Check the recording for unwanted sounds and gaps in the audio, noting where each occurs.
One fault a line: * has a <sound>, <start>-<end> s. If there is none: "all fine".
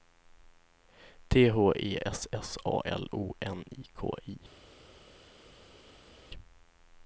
all fine